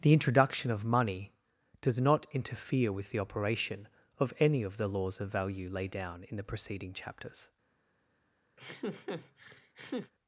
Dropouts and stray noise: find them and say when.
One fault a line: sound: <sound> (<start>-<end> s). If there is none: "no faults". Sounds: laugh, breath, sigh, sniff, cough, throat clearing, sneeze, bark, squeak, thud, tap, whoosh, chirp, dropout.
sound: laugh (8.6-10.1 s)